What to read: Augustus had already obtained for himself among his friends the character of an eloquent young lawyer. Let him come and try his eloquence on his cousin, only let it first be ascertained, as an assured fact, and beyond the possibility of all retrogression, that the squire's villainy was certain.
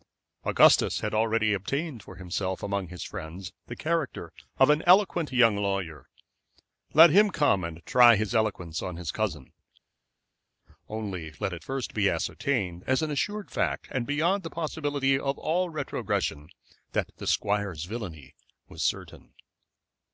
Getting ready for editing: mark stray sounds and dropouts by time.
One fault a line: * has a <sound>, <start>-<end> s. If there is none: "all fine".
all fine